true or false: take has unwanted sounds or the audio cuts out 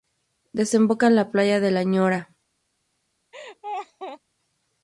true